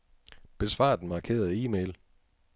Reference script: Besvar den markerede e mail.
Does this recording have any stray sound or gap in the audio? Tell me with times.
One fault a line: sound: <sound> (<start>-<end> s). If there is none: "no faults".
no faults